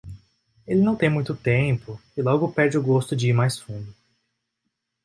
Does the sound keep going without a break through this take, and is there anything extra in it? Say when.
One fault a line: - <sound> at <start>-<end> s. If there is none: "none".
none